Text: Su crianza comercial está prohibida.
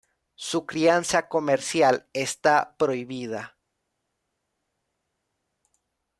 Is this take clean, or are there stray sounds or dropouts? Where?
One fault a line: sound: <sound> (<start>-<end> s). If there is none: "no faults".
no faults